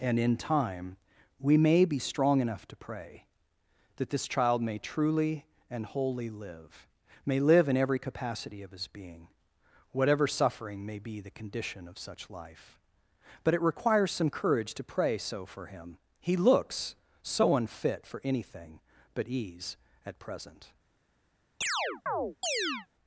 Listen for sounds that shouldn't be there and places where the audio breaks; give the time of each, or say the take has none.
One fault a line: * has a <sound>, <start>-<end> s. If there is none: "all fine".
* has a chirp, 21.6-22.9 s